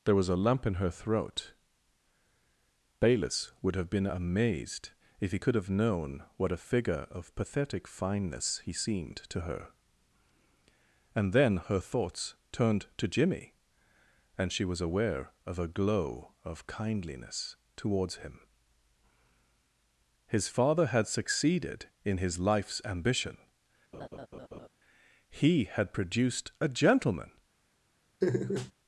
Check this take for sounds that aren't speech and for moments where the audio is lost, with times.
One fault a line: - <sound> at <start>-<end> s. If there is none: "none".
- laugh at 23.9-24.7 s
- laugh at 28.2-28.7 s